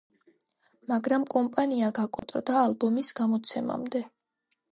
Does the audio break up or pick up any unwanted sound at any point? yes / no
yes